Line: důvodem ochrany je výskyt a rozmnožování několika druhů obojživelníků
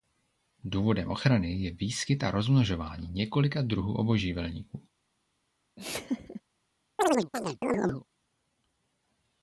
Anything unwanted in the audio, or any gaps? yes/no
yes